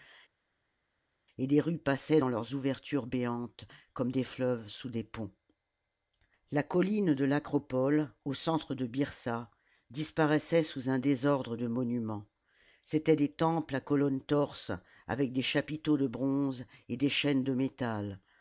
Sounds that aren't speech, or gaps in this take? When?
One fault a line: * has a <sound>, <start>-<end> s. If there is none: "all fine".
all fine